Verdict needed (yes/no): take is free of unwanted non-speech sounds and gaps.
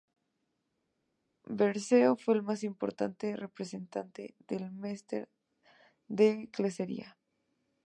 yes